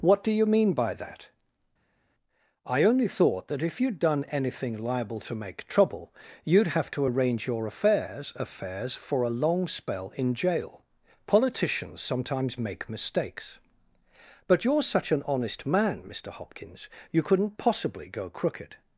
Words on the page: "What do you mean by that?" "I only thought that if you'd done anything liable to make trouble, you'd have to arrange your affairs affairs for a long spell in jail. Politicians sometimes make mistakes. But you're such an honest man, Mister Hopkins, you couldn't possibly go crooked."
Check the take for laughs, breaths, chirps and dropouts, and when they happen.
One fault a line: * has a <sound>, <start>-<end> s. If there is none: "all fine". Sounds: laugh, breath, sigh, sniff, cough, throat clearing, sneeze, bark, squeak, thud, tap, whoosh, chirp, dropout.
all fine